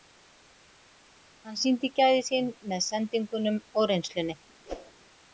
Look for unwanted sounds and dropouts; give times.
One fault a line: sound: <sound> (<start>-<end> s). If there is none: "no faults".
sound: whoosh (4.7-4.9 s)